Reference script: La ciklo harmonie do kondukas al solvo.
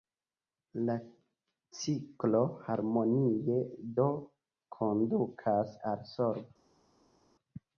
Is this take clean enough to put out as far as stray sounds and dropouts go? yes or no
yes